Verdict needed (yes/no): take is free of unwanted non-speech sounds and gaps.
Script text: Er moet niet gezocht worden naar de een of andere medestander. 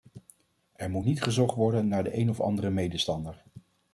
yes